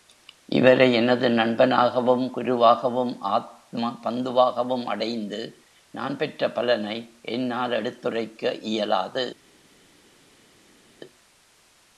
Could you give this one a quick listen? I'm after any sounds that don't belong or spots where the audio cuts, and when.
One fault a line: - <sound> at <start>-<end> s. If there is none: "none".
none